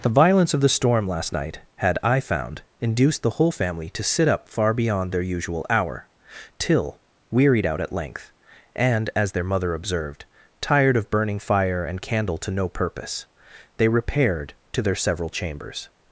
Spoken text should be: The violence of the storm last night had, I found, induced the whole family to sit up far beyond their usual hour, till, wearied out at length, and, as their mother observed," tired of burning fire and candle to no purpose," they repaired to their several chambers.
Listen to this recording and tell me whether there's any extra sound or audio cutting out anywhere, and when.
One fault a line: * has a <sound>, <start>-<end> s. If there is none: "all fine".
all fine